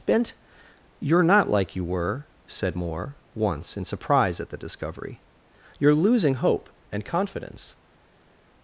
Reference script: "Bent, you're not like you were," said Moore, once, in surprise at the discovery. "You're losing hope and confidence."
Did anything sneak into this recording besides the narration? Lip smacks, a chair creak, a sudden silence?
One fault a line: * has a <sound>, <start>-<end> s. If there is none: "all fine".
all fine